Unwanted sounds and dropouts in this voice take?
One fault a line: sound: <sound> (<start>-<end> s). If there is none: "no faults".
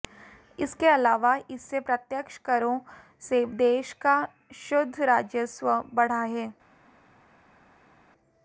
no faults